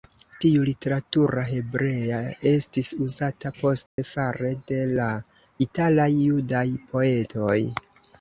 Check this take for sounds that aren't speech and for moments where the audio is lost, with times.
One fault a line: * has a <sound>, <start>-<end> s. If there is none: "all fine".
* has a dropout, 3.9-4.0 s